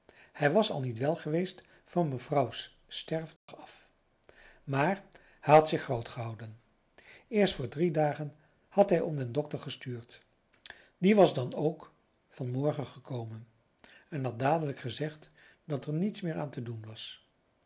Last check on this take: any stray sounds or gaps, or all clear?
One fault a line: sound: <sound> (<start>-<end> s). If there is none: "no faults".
sound: dropout (3.4-3.5 s)